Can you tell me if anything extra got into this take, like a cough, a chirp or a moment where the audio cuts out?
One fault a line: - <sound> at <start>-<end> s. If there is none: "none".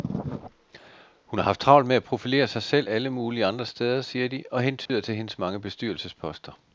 - dropout at 4.9-4.9 s